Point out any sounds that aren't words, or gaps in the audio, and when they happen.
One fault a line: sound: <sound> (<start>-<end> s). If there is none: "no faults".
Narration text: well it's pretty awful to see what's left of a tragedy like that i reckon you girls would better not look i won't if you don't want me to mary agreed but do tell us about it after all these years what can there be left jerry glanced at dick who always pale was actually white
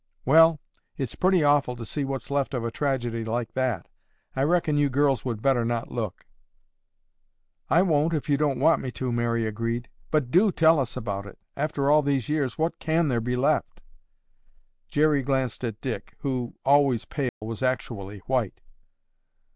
sound: dropout (17.3-17.4 s)